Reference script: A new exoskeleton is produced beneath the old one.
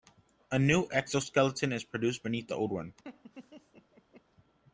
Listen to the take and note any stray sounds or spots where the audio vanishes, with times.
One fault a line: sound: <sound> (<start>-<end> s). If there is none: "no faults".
sound: laugh (3.0-4.2 s)